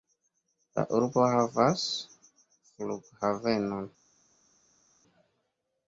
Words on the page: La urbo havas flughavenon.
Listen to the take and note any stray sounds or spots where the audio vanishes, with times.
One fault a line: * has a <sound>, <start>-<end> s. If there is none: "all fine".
all fine